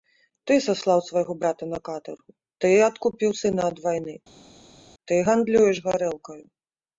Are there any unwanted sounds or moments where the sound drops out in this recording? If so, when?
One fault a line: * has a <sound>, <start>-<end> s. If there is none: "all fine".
all fine